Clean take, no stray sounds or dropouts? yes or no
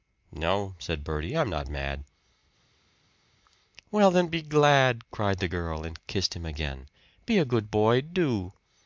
yes